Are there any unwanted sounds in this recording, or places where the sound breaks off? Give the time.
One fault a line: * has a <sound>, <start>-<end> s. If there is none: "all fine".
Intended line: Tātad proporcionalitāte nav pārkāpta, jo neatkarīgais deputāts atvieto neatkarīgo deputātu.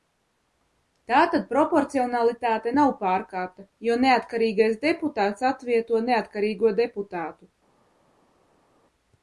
all fine